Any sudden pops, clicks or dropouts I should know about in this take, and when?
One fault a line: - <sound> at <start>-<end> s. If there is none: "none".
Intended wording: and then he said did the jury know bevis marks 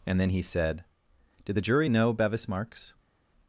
none